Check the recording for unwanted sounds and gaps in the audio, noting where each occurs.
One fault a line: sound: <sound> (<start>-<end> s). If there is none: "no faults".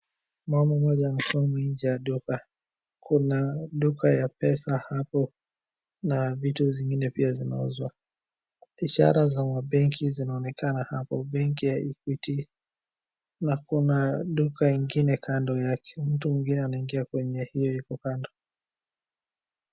no faults